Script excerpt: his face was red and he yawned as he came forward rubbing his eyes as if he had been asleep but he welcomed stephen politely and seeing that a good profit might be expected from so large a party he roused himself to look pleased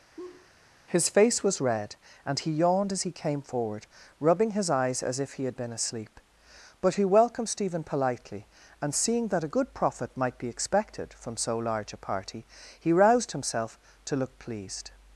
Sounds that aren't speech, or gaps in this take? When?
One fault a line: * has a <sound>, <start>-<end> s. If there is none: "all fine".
* has a laugh, 0.2-0.5 s